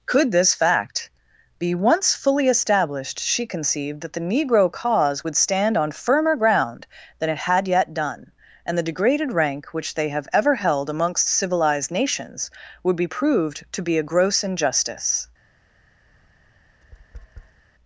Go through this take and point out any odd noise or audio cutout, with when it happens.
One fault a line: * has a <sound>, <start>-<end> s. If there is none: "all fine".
* has a tap, 16.1-17.6 s